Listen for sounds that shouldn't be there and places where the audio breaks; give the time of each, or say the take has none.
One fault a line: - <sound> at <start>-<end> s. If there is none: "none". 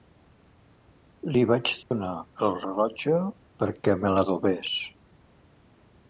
- dropout at 1.8-1.9 s